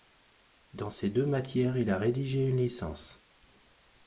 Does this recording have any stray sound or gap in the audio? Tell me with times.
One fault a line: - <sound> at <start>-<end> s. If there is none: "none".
none